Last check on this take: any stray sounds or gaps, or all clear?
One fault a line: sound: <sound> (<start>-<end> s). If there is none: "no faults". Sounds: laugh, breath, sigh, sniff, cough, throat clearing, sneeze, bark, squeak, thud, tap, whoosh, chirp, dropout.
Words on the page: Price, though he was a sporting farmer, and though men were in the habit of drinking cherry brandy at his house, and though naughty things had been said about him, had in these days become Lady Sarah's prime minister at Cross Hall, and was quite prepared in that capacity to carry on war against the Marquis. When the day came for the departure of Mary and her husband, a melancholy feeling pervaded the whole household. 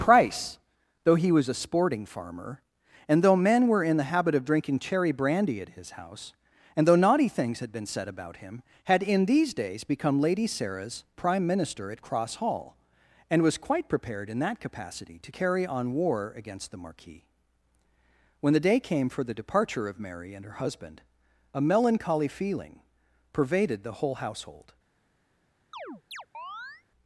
sound: chirp (25.7-26.8 s)